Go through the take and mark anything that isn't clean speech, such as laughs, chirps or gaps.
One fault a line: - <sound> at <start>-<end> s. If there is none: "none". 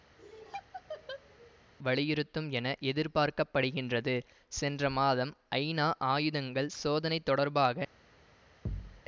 - laugh at 0.2-1.6 s
- thud at 8.6-9.0 s